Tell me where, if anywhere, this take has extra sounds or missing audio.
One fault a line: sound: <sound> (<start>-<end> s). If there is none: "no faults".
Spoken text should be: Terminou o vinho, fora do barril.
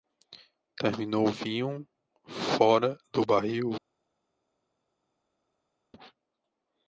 no faults